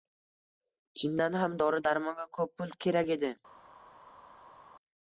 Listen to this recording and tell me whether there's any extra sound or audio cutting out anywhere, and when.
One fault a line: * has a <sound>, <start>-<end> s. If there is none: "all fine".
all fine